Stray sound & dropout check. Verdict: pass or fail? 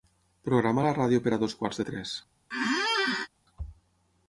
fail